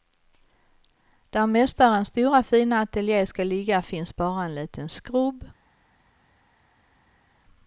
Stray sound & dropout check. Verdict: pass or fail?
pass